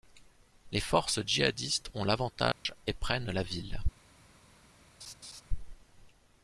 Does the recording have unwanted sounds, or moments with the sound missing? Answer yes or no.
yes